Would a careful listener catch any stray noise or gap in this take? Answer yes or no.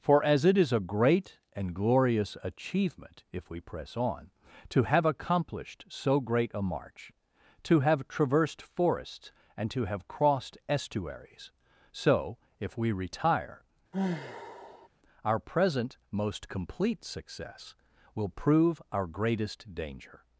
yes